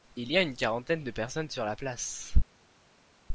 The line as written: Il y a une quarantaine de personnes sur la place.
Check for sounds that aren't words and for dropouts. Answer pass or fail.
pass